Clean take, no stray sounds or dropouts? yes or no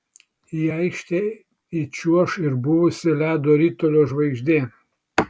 yes